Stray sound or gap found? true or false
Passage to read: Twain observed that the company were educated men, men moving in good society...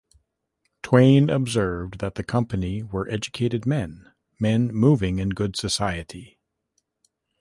false